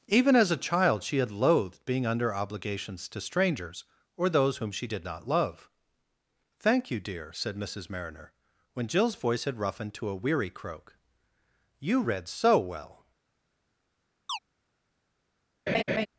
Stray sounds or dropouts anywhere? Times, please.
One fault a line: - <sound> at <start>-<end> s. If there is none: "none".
- chirp at 14.3-14.4 s
- laugh at 15.7-16.1 s